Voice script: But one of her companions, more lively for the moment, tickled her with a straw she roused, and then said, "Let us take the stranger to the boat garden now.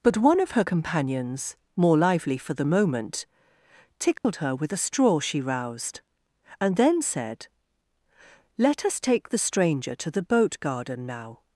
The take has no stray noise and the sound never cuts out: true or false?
false